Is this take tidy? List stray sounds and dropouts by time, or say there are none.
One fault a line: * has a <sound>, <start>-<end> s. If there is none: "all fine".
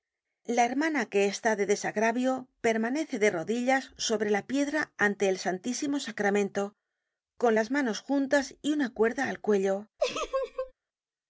* has a laugh, 10.0-10.7 s